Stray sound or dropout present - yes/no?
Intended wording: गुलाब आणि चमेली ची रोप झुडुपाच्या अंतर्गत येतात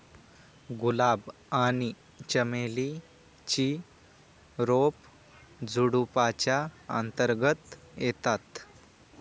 no